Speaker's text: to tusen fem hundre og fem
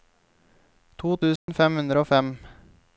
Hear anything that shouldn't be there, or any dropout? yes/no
yes